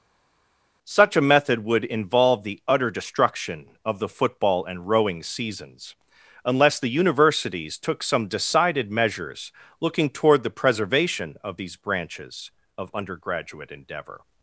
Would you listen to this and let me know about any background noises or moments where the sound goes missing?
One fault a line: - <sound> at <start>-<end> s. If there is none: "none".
none